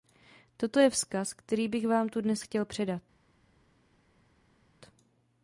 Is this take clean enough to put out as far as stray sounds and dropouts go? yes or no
yes